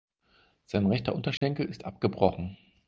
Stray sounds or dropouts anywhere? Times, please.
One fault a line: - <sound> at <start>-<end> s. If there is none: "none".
- dropout at 1.4-1.4 s